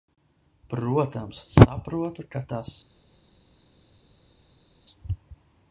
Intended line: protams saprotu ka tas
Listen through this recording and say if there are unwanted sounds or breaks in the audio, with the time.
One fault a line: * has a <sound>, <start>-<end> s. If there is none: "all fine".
all fine